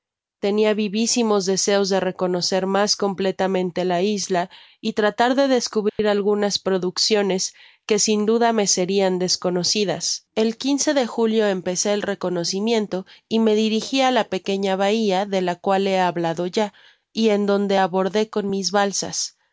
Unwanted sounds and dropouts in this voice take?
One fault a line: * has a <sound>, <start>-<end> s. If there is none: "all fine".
* has a dropout, 5.9-6.0 s